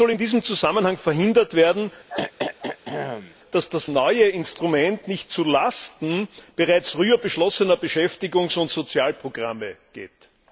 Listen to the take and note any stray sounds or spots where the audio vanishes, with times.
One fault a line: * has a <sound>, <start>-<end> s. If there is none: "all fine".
* has a throat clearing, 2.1-3.4 s